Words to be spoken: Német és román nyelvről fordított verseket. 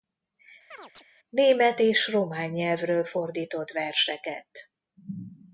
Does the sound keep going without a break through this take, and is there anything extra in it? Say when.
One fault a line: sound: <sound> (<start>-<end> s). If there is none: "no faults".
sound: chirp (0.7-1.0 s)